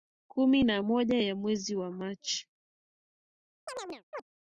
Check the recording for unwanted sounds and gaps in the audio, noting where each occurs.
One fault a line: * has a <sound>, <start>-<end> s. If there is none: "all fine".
* has a chirp, 3.7-4.2 s